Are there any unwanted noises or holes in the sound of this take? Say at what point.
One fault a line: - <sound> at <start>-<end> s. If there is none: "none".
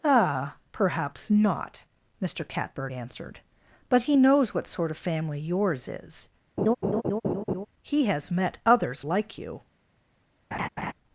- laugh at 6.6-7.7 s
- laugh at 10.5-10.9 s